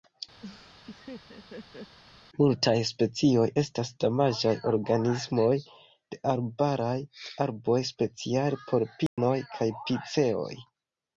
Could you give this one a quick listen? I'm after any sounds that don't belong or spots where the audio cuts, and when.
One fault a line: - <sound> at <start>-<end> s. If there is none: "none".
- laugh at 0.4-2.0 s
- dropout at 9.1-9.2 s